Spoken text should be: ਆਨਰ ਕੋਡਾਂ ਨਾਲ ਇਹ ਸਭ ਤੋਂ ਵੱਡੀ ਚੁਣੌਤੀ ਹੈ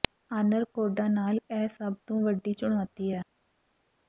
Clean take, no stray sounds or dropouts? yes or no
yes